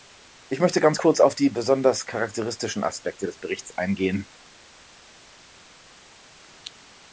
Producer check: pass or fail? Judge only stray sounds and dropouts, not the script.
pass